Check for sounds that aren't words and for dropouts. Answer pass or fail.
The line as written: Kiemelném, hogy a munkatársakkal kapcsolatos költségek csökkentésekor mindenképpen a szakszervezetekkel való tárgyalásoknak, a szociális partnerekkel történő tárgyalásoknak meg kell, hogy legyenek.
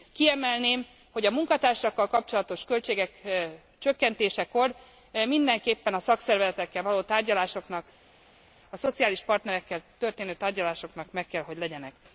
pass